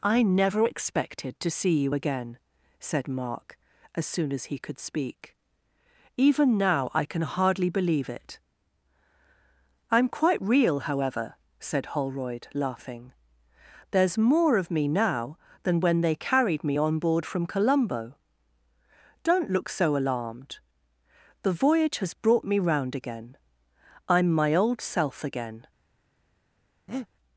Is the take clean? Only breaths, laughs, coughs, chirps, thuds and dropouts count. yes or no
no